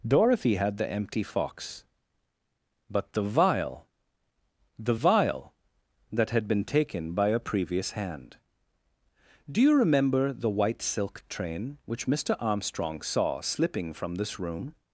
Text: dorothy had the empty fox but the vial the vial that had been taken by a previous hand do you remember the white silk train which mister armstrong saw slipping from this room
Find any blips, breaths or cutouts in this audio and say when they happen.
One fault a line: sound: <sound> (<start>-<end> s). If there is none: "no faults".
no faults